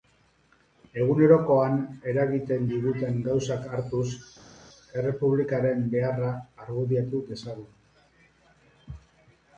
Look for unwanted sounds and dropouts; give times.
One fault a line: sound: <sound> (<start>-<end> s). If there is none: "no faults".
no faults